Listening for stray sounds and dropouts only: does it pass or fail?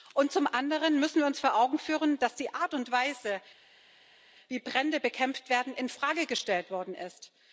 pass